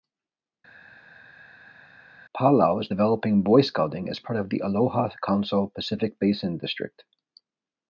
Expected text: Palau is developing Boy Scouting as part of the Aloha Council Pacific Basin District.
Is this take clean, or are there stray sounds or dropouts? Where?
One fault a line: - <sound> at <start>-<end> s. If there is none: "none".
none